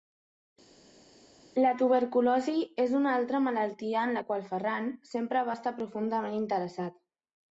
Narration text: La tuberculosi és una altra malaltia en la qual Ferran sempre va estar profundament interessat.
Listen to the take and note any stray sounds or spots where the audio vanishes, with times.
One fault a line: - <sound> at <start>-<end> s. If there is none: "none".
none